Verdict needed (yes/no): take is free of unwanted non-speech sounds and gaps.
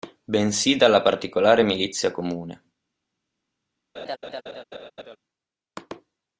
no